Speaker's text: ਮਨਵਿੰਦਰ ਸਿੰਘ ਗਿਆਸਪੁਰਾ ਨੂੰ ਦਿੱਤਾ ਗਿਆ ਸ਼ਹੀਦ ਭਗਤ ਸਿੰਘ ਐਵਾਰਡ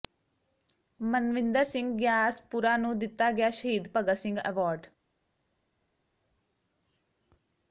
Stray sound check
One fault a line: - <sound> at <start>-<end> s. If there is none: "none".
none